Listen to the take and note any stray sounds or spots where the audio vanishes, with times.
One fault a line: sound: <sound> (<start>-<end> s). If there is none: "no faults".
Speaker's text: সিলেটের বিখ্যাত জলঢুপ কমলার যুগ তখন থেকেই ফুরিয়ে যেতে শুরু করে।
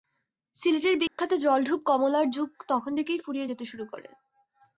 sound: dropout (1.1-1.2 s)